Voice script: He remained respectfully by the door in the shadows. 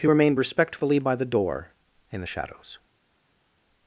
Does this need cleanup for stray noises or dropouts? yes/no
no